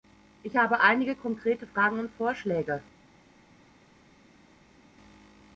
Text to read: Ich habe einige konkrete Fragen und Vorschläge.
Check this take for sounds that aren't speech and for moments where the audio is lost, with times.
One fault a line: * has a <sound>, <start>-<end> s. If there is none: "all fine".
all fine